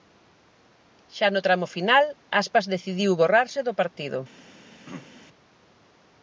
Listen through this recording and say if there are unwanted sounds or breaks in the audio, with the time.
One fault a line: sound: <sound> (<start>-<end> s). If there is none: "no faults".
sound: throat clearing (4.8-5.1 s)